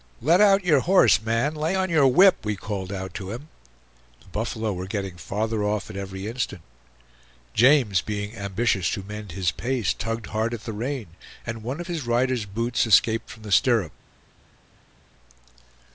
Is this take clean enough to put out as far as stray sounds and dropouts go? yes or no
yes